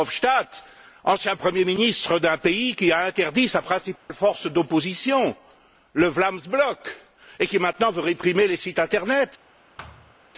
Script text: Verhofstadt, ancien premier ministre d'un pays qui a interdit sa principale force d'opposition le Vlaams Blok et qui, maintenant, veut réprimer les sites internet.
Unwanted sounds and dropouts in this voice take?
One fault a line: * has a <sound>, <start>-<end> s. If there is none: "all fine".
* has a dropout, 4.0-4.1 s
* has a thud, 9.8-10.2 s